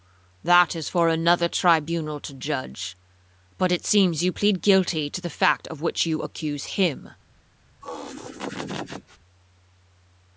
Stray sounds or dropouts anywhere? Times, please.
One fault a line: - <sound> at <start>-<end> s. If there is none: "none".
- laugh at 7.8-9.2 s